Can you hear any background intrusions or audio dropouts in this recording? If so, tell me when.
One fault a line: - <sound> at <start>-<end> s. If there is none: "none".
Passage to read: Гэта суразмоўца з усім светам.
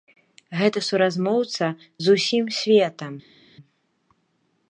none